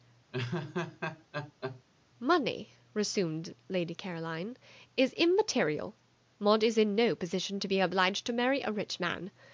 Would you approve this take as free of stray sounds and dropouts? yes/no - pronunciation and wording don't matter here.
no